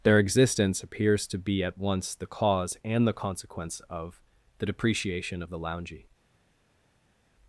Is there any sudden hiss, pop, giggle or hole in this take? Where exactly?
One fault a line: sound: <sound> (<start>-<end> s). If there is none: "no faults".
no faults